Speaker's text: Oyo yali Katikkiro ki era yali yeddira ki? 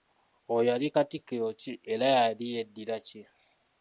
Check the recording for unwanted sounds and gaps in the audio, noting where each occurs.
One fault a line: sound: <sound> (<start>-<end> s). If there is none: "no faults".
no faults